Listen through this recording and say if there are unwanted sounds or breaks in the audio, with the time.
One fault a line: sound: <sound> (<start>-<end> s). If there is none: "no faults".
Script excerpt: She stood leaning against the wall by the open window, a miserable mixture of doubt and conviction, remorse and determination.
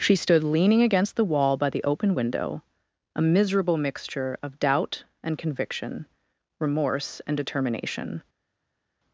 no faults